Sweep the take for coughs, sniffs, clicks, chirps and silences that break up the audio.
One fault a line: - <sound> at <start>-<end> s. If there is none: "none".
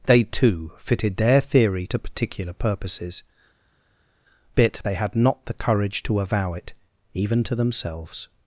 none